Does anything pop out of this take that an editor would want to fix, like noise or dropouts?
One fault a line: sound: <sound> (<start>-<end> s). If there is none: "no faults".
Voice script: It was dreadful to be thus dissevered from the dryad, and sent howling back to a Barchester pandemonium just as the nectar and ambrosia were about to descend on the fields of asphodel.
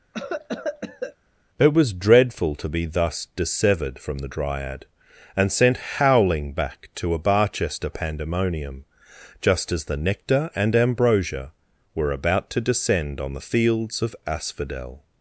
sound: cough (0.1-1.2 s)